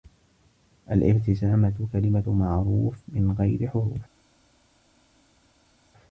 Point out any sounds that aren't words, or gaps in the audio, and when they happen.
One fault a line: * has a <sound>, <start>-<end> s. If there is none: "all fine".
all fine